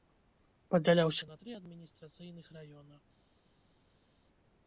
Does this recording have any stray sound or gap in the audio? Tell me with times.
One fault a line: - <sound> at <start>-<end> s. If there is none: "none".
none